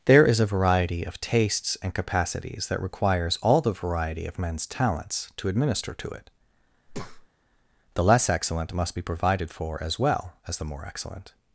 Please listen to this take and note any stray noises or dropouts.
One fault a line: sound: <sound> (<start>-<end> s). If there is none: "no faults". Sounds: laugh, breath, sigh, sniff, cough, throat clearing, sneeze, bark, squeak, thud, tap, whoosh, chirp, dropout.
sound: breath (6.9-7.3 s)